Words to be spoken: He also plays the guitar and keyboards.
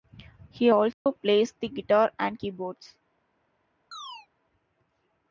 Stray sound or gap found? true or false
true